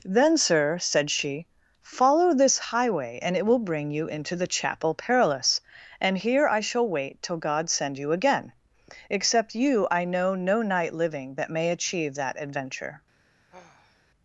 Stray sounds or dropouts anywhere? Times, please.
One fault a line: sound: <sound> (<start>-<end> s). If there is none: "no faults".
sound: sigh (13.5-14.0 s)